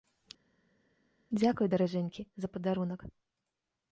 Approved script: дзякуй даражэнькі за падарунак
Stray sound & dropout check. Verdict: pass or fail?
pass